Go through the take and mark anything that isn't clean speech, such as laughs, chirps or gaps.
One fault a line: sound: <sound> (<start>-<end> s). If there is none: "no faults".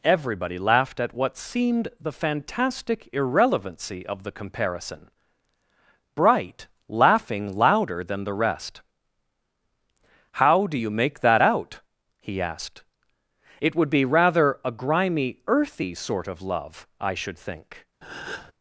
sound: breath (18.0-18.5 s)